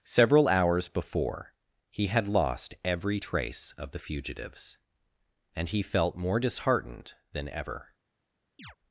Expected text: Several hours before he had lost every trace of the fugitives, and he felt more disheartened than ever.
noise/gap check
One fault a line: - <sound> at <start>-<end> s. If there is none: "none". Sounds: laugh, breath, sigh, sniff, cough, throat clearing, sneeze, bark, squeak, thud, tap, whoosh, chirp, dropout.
- chirp at 8.6-8.8 s